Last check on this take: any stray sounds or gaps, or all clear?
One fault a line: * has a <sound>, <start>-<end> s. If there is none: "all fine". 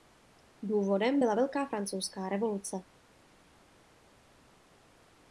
all fine